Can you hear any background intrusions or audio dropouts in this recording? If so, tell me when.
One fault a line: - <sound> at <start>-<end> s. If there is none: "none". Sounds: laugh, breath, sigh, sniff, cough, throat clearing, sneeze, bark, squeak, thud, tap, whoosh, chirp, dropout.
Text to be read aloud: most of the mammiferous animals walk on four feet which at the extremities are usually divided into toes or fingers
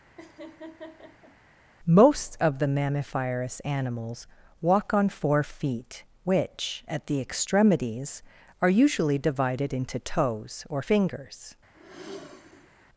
- laugh at 0.2-1.4 s
- sigh at 11.7-12.9 s